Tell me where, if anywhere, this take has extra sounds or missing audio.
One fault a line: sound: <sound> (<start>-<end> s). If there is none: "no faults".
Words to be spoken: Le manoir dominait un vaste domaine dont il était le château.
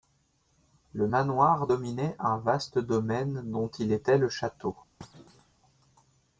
sound: thud (5.0-5.6 s)